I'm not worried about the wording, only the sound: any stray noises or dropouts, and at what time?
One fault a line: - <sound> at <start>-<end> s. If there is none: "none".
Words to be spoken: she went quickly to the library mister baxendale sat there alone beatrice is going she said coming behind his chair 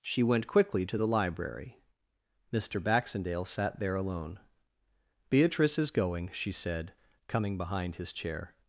none